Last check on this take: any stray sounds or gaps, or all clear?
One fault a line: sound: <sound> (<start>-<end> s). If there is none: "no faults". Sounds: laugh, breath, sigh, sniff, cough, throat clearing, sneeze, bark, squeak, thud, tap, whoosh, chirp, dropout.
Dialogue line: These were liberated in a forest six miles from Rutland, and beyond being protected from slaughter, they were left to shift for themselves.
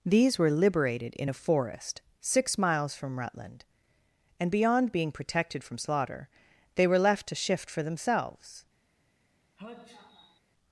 sound: sneeze (9.6-10.4 s)